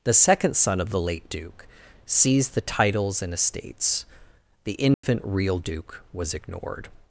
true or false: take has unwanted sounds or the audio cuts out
true